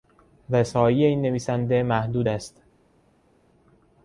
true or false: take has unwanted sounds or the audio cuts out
false